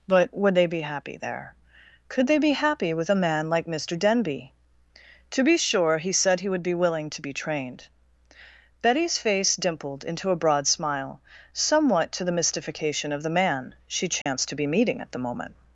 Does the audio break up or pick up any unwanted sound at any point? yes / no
yes